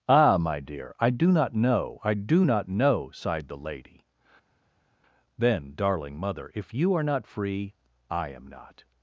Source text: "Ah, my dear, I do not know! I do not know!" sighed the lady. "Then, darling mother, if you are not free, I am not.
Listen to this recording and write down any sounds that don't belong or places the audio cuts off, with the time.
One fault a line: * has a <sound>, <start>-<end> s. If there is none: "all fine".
all fine